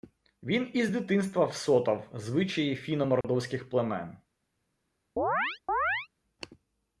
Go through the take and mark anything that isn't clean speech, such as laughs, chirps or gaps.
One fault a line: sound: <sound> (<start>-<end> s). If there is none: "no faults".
sound: dropout (3.2-3.2 s)
sound: chirp (5.2-6.1 s)